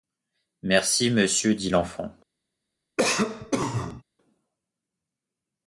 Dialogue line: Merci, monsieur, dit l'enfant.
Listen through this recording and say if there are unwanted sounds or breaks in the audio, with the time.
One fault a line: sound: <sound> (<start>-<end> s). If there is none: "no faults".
sound: cough (3.0-4.0 s)